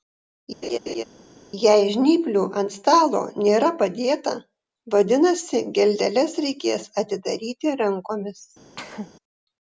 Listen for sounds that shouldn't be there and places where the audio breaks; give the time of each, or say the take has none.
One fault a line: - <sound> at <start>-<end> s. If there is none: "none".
- laugh at 0.6-1.0 s
- cough at 8.8-9.1 s